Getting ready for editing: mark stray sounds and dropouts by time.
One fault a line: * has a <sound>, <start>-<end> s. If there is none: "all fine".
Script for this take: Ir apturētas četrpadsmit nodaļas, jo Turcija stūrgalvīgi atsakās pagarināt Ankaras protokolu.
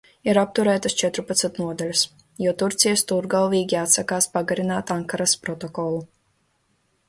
all fine